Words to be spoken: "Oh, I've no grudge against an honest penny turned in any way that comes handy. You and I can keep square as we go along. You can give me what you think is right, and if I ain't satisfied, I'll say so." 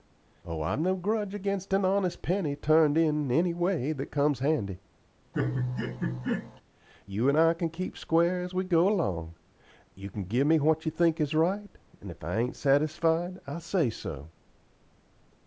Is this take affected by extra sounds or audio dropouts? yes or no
yes